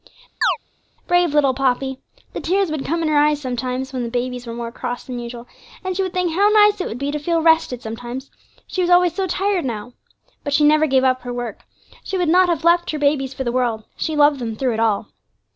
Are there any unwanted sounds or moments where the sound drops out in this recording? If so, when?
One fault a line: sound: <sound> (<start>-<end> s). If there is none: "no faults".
sound: chirp (0.4-0.6 s)